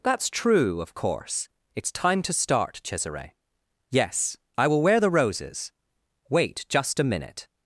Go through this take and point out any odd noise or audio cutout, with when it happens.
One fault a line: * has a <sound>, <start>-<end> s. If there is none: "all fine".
all fine